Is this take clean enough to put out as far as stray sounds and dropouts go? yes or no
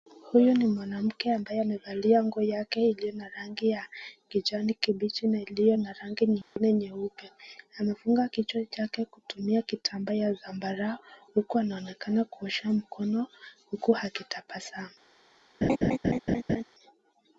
no